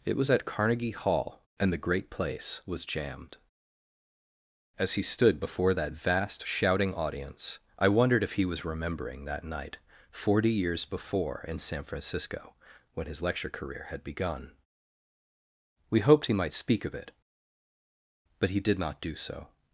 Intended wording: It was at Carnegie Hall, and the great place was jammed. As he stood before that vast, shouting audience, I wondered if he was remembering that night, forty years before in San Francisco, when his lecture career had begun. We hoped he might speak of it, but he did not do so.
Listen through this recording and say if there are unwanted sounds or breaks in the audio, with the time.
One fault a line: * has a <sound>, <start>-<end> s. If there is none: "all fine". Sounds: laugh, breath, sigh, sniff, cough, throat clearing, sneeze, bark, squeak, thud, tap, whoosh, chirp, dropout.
all fine